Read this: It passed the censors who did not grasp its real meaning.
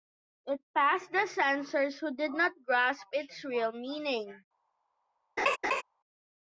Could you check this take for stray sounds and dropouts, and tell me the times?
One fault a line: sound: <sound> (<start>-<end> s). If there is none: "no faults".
sound: laugh (5.4-5.8 s)